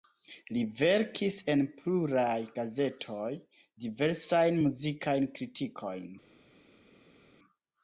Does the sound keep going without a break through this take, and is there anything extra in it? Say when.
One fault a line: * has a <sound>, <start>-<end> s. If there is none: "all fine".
all fine